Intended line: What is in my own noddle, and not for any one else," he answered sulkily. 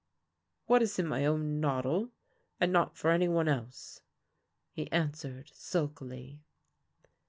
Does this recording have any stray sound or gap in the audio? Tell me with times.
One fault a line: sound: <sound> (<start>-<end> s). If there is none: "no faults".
no faults